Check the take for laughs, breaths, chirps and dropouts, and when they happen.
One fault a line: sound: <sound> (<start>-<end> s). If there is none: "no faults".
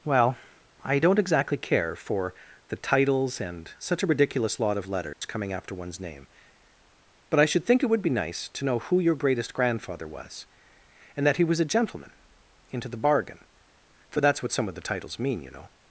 sound: dropout (5.1-5.2 s)